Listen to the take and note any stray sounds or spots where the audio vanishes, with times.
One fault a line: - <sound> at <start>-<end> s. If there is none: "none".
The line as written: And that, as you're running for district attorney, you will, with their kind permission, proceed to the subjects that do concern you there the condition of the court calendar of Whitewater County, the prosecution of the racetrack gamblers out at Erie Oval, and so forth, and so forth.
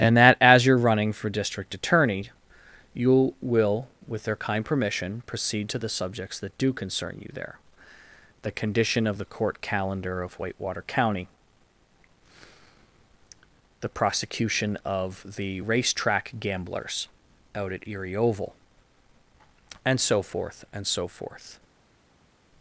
none